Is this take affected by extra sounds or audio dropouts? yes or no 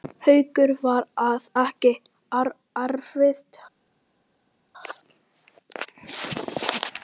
no